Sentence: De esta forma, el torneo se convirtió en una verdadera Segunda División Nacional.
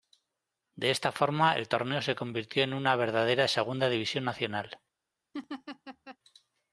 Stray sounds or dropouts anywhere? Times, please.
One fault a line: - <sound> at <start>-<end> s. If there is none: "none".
- laugh at 5.3-6.2 s